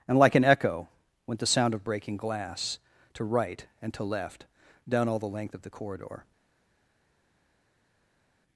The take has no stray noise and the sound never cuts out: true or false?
true